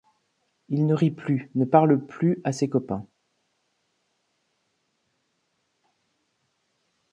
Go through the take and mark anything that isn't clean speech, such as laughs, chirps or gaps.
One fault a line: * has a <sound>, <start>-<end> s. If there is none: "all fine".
all fine